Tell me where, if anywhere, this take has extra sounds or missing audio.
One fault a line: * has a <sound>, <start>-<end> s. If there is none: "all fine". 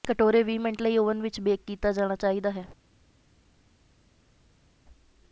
all fine